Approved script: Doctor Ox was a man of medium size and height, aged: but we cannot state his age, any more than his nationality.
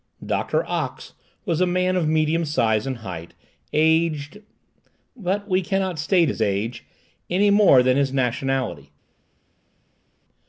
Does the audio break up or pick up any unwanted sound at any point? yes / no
no